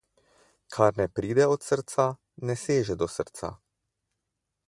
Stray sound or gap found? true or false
false